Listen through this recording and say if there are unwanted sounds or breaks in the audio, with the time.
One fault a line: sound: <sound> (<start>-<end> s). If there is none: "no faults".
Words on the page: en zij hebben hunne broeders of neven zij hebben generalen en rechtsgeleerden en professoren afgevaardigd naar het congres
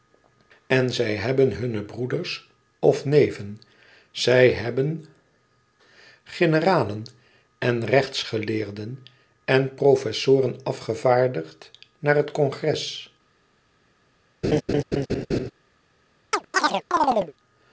sound: laugh (14.4-15.5 s)
sound: chirp (16.3-17.3 s)